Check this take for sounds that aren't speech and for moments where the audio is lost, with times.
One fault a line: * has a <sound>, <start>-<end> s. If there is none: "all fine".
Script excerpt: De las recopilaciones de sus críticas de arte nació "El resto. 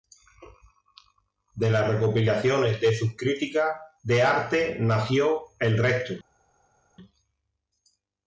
all fine